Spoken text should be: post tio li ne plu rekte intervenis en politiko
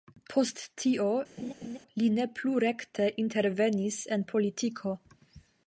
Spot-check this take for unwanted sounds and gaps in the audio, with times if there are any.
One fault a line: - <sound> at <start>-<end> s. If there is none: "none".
- laugh at 1.4-1.8 s